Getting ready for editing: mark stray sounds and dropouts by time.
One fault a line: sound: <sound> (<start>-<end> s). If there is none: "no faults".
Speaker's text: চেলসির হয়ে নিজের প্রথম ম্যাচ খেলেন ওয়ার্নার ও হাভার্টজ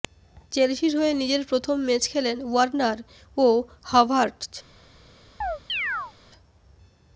sound: chirp (5.4-6.1 s)